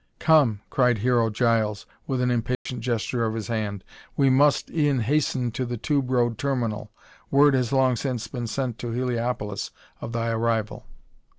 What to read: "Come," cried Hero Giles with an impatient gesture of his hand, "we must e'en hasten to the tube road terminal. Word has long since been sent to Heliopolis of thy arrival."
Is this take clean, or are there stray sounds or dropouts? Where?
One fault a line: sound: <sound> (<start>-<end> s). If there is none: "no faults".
sound: dropout (2.5-2.7 s)